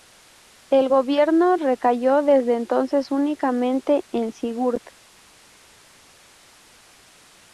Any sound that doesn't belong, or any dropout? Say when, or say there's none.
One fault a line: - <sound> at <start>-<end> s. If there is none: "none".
none